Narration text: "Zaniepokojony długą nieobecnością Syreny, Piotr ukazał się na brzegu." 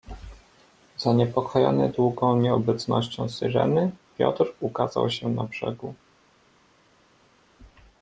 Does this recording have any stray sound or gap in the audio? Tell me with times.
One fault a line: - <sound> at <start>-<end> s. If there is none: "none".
none